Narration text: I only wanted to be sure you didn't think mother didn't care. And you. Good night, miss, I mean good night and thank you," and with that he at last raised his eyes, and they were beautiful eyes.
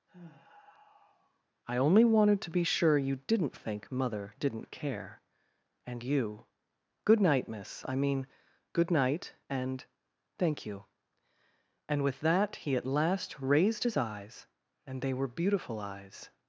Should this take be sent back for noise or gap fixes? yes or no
yes